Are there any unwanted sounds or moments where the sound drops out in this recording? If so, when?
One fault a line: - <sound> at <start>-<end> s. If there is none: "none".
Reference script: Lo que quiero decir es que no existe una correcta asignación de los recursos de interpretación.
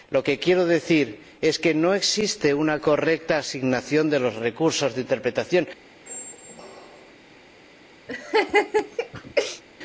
- squeak at 6.1-7.1 s
- laugh at 8.1-9.6 s